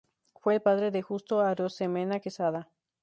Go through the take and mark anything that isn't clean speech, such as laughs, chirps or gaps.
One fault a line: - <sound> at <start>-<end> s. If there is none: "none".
none